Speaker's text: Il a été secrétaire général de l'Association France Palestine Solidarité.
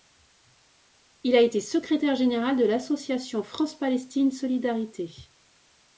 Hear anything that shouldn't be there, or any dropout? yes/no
no